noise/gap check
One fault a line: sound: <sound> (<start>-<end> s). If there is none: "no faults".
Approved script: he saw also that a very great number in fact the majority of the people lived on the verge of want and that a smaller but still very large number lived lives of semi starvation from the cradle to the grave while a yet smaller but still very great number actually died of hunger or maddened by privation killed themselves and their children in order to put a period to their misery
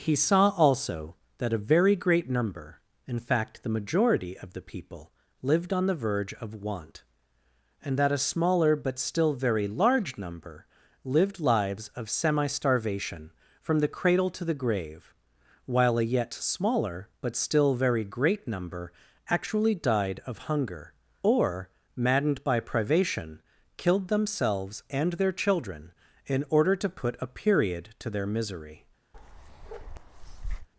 sound: bark (29.1-30.7 s)